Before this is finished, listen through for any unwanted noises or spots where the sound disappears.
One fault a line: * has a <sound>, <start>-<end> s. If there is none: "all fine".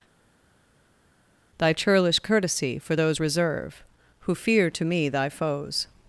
all fine